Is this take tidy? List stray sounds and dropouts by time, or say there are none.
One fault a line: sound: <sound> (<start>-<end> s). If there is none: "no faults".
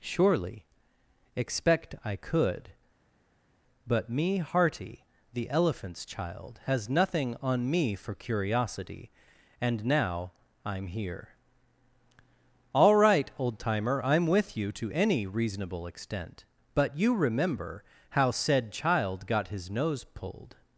no faults